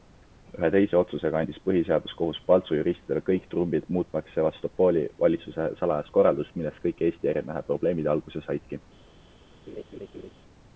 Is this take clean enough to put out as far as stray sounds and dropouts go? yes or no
no